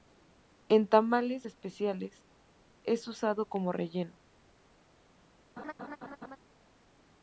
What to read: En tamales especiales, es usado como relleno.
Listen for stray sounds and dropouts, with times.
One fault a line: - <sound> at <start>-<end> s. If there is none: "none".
- laugh at 5.6-6.4 s